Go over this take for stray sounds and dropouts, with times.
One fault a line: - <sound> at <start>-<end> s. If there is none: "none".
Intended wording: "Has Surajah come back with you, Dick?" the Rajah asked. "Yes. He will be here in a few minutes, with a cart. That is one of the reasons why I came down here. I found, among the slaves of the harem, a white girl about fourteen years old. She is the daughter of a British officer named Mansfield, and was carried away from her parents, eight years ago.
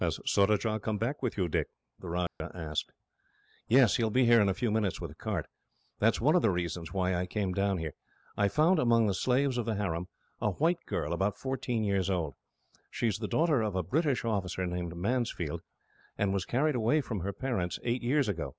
- dropout at 2.3-2.4 s